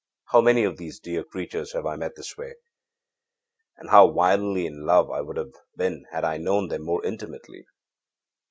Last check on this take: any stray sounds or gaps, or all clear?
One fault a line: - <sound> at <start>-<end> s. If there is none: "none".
none